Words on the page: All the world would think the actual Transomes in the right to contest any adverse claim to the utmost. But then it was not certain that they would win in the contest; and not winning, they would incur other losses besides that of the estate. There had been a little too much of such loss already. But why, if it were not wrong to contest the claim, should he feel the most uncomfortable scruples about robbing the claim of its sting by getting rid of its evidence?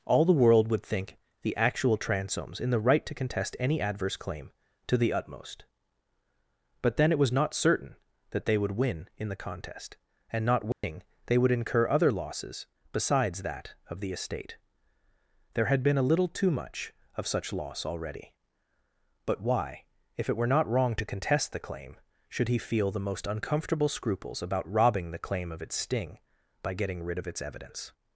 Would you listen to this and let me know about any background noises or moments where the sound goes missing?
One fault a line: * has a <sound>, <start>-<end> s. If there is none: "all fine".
* has a dropout, 10.7-10.8 s